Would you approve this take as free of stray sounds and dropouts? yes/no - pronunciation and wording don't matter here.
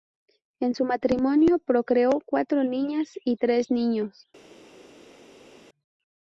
yes